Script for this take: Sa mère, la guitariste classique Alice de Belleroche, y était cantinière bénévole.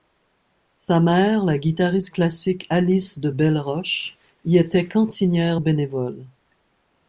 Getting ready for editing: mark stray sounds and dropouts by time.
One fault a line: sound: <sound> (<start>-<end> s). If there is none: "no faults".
no faults